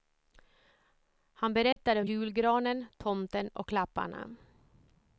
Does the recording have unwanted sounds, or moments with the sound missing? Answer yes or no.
yes